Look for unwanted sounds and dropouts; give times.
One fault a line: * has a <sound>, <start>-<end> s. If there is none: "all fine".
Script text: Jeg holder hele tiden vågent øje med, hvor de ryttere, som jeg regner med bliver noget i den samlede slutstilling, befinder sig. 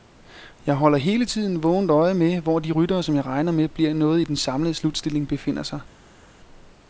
all fine